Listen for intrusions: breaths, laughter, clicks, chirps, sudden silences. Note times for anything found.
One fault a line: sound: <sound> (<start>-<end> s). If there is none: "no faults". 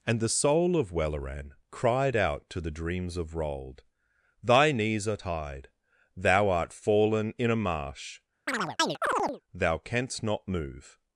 sound: chirp (8.5-9.4 s)